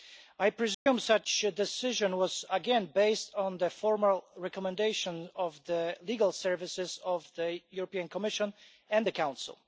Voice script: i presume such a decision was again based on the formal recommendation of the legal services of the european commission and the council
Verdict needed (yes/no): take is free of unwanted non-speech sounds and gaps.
no